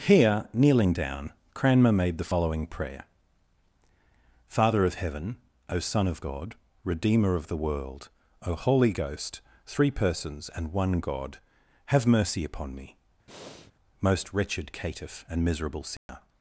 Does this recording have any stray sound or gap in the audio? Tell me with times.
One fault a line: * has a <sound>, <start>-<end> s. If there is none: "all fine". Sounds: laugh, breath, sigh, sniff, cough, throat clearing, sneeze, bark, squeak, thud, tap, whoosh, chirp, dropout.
* has a breath, 13.3-13.7 s
* has a dropout, 16.0-16.1 s